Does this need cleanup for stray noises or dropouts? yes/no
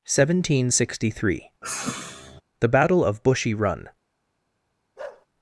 yes